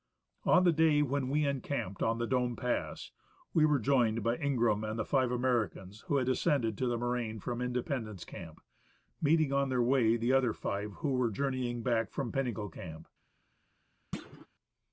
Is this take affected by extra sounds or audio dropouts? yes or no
yes